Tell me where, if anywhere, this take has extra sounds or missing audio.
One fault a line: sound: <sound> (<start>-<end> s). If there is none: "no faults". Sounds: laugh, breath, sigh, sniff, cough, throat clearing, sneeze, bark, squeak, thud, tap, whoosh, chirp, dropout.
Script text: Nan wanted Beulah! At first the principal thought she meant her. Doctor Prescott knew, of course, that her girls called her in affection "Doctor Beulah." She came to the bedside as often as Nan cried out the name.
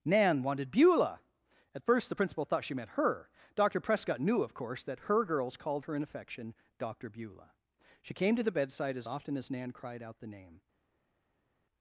no faults